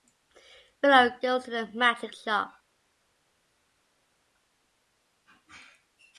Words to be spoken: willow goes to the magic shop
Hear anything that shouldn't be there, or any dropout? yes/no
no